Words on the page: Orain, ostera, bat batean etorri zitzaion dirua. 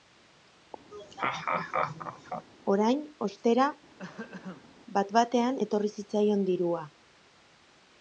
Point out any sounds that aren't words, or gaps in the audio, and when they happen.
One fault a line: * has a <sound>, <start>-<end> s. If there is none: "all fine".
* has a laugh, 0.9-2.5 s
* has a throat clearing, 4.0-4.7 s